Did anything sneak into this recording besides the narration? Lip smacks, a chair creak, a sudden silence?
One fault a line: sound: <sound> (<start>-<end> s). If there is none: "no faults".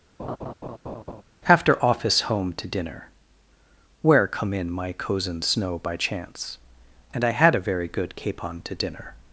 sound: laugh (0.2-1.2 s)